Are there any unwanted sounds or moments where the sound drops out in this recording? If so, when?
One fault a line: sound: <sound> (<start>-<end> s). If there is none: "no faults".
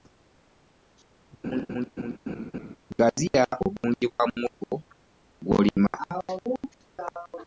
sound: laugh (1.4-2.8 s)